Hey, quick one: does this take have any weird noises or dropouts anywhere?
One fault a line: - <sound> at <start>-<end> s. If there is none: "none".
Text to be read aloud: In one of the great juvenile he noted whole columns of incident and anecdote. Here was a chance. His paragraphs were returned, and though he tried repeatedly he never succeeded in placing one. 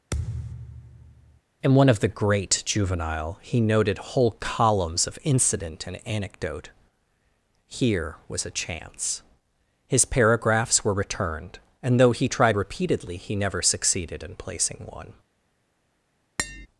- thud at 0.1-1.4 s
- tap at 16.4-16.7 s